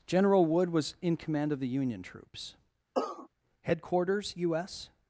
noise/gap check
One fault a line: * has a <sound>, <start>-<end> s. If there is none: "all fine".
* has a cough, 2.9-3.3 s